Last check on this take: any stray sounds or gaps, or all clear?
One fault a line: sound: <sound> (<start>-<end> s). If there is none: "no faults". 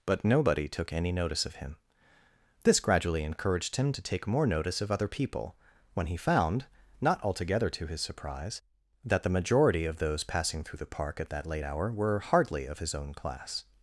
no faults